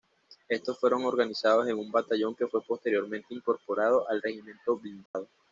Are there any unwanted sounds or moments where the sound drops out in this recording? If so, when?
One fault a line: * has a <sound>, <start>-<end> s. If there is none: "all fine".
* has a dropout, 5.1-5.1 s